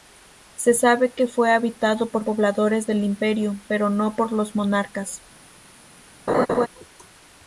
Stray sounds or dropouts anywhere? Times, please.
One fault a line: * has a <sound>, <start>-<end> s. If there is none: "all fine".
* has a laugh, 6.3-6.7 s